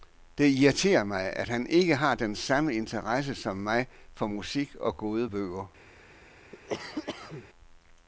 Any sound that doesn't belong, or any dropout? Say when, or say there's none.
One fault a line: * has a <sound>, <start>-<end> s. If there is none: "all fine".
* has a cough, 6.5-7.5 s